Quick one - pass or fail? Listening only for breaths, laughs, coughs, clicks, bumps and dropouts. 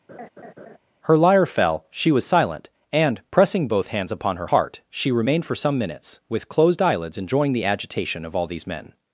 fail